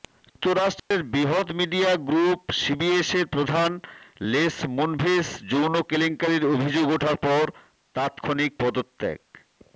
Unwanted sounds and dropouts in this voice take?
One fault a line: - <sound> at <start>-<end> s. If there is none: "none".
- dropout at 0.8-0.9 s